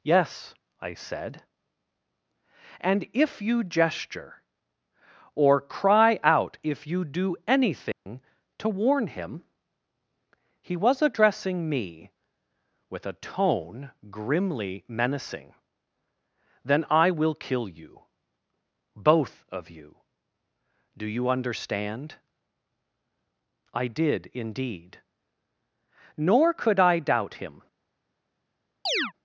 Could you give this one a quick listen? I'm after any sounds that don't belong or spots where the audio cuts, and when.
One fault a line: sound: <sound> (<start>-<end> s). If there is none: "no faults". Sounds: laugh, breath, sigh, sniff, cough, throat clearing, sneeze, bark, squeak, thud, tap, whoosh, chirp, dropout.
sound: dropout (7.9-8.1 s)
sound: chirp (28.9-29.1 s)